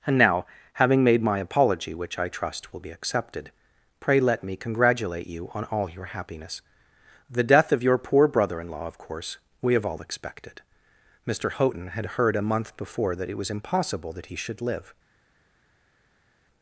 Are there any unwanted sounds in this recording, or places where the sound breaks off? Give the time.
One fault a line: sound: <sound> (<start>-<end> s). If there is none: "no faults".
no faults